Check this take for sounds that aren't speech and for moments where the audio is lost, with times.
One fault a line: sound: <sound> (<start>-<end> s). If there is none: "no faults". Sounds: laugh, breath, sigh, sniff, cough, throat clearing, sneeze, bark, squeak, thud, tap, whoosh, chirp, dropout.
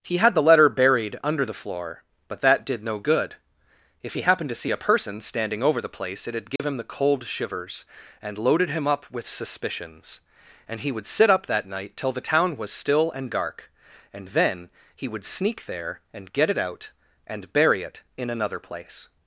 sound: dropout (6.6-6.6 s)